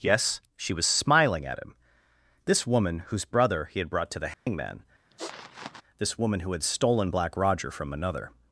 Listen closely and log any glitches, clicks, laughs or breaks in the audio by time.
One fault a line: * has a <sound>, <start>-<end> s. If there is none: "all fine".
* has a dropout, 4.3-4.5 s
* has a sniff, 5.1-5.8 s